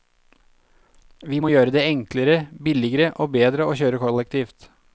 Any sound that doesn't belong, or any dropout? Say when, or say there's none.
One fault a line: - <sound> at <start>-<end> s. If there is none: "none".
none